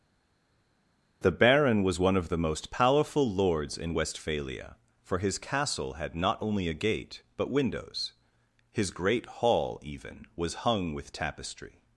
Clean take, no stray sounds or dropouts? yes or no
yes